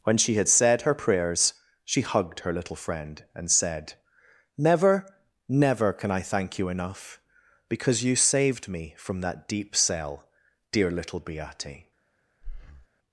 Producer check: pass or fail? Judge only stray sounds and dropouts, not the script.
fail